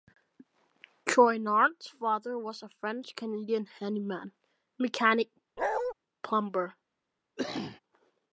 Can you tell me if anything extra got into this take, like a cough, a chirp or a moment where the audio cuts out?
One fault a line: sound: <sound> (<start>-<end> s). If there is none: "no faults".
sound: bark (5.6-5.9 s)
sound: cough (7.4-7.8 s)